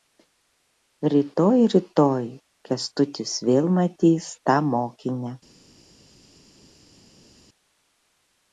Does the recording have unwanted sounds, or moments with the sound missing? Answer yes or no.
no